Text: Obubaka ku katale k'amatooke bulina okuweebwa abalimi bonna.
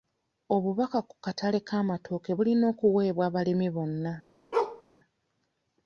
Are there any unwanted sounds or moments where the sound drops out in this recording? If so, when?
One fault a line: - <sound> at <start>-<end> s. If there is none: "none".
- bark at 4.5-4.8 s